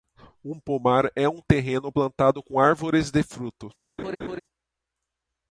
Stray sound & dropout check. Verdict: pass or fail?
fail